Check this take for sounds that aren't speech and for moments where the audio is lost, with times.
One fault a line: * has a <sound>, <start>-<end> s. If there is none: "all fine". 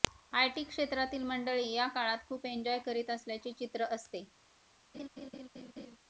* has a laugh, 4.9-6.0 s